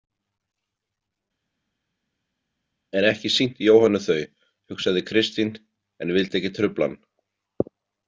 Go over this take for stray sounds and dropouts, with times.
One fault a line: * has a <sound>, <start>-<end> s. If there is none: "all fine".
all fine